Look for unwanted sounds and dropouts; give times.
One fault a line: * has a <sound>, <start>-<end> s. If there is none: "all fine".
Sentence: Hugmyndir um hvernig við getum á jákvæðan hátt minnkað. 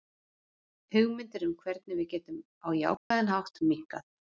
* has a dropout, 3.0-3.1 s